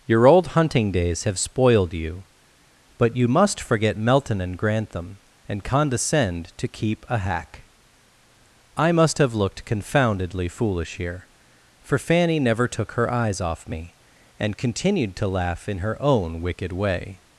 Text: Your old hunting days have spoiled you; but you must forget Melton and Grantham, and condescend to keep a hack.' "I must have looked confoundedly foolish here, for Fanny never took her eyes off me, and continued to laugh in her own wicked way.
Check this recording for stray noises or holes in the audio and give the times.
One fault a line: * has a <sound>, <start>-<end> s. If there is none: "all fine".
all fine